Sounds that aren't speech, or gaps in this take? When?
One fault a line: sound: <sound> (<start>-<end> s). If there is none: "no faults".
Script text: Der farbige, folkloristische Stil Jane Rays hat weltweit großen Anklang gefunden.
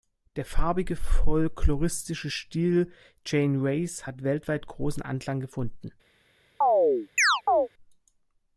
sound: chirp (6.6-7.7 s)